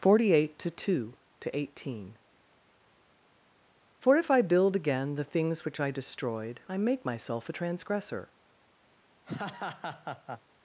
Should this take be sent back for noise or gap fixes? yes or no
yes